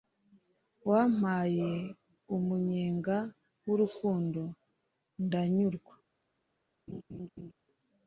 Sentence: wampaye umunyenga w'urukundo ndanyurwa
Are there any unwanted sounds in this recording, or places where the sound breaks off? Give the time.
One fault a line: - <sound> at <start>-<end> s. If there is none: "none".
- laugh at 6.9-7.5 s